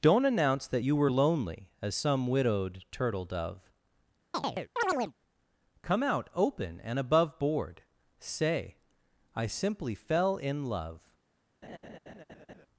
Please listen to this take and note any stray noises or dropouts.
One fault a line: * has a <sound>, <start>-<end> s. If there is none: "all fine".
* has a chirp, 4.3-5.1 s
* has a laugh, 11.6-12.7 s